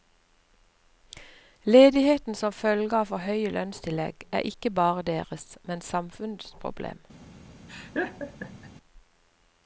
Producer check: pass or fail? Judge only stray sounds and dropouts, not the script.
fail